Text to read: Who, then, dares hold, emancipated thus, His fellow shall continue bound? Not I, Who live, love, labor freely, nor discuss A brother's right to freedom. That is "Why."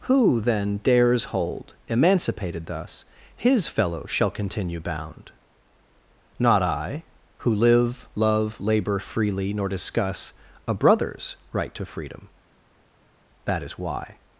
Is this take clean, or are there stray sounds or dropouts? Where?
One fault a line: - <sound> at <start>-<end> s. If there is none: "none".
none